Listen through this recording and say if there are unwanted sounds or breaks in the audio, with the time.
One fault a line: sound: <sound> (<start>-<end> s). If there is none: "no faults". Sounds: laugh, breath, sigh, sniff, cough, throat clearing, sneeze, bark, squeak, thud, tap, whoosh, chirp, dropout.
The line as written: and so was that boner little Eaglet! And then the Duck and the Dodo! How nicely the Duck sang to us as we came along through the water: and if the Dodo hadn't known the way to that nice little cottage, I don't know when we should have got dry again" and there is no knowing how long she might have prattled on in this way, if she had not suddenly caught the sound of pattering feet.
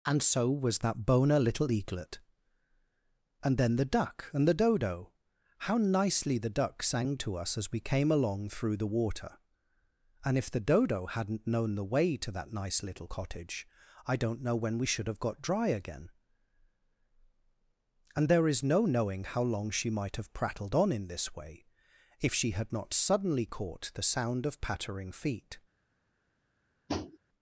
sound: tap (26.9-27.2 s)